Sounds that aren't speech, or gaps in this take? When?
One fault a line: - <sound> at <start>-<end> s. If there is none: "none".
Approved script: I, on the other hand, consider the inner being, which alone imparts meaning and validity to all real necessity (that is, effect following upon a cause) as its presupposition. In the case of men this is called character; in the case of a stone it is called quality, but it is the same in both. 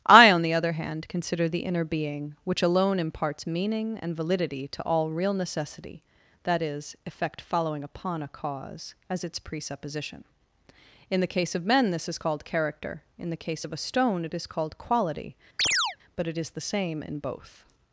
- chirp at 15.6-16.0 s